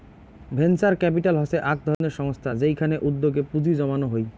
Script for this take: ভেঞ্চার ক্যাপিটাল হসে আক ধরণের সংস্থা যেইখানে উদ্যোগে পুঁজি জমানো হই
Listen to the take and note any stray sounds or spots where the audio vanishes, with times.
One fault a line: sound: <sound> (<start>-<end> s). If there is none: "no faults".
sound: dropout (1.9-2.0 s)